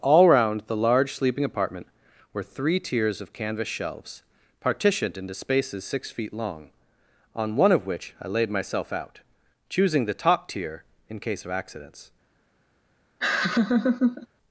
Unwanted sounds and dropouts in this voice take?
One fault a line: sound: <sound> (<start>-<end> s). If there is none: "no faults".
sound: laugh (13.2-14.3 s)